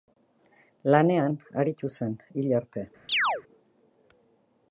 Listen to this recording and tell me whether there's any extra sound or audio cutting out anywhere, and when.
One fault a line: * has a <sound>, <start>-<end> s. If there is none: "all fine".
* has a chirp, 3.1-3.4 s